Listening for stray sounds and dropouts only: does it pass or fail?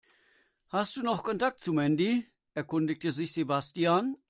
pass